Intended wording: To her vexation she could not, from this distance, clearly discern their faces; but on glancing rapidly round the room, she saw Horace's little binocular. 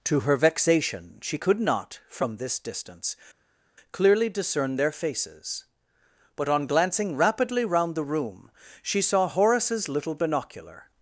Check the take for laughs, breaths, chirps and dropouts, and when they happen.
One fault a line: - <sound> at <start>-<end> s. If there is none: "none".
none